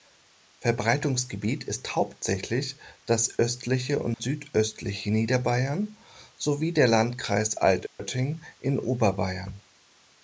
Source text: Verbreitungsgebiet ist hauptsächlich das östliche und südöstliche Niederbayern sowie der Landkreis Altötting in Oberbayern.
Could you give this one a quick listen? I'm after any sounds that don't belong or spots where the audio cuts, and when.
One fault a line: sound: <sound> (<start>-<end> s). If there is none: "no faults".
sound: dropout (4.1-4.2 s)
sound: dropout (7.9-8.0 s)